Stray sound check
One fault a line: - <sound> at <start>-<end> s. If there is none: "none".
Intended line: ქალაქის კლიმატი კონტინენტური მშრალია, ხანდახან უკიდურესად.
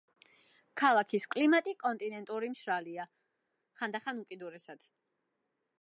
none